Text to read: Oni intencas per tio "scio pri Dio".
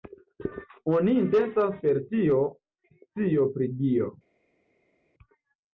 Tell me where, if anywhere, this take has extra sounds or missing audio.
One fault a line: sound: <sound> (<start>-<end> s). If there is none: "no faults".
no faults